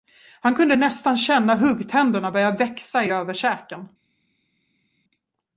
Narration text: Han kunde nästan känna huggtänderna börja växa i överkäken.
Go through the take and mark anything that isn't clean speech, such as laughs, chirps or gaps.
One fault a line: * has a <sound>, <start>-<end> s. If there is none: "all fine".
all fine